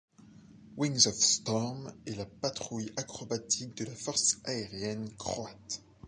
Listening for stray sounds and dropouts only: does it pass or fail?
pass